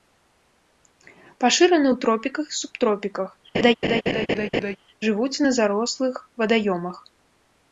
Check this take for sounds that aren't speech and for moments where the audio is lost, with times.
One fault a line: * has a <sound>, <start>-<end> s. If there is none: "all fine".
* has a laugh, 3.5-4.8 s